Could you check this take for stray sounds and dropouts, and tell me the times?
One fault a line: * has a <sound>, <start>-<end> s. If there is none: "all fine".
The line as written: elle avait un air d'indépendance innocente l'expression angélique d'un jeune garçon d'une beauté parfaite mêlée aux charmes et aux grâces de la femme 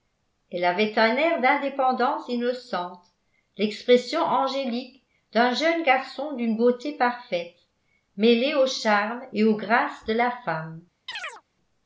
* has a chirp, 11.1-11.4 s